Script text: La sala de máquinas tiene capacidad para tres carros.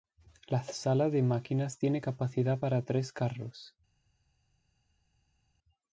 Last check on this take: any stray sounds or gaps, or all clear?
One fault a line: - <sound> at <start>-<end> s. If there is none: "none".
none